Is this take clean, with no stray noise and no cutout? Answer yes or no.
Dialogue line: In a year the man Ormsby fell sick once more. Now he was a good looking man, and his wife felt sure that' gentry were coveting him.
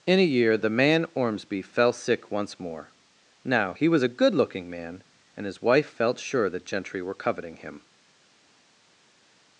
yes